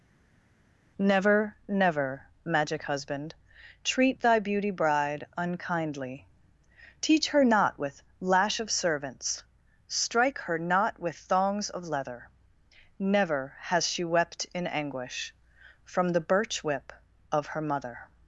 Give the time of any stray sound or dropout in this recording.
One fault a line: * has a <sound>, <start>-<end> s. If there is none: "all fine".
all fine